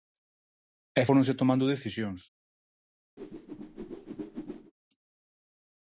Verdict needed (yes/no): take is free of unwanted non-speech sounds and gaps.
no